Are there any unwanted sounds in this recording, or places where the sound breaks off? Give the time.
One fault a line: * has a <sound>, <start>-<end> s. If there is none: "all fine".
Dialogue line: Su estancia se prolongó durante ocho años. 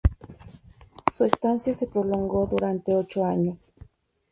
all fine